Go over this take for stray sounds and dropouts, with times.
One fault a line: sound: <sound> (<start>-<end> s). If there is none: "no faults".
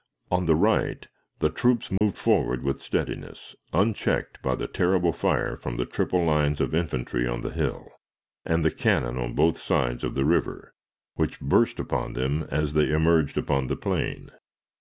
sound: dropout (2.0-2.0 s)